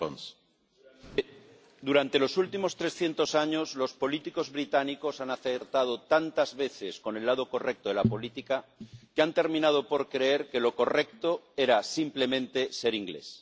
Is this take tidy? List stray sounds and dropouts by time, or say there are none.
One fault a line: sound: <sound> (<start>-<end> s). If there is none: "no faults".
no faults